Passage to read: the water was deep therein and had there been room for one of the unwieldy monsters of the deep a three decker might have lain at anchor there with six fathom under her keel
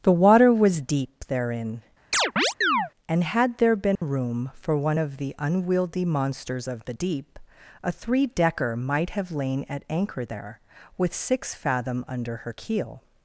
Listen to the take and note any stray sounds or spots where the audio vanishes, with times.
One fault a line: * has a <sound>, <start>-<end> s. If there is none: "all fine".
* has a chirp, 2.1-2.9 s
* has a dropout, 4.0-4.0 s